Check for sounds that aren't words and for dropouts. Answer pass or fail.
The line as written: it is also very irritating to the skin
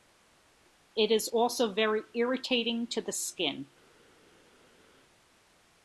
pass